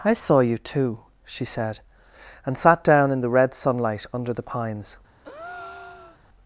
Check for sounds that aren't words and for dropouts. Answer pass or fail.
fail